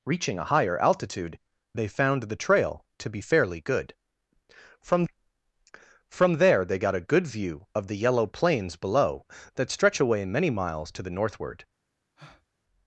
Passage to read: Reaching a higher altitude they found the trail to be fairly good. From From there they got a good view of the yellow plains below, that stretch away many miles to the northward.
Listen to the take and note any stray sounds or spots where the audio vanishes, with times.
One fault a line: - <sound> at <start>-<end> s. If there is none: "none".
- breath at 12.2-12.5 s